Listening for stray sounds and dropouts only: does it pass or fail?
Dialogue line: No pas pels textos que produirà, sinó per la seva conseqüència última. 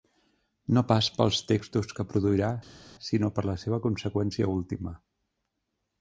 pass